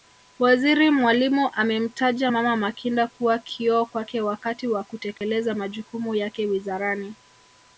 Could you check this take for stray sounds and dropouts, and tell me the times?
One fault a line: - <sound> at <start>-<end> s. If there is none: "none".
- dropout at 5.2-5.2 s